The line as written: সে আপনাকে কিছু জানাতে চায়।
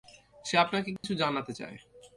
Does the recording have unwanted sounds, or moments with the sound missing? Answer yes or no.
yes